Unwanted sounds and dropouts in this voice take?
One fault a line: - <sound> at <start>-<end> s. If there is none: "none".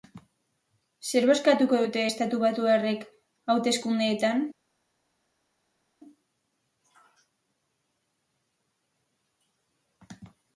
none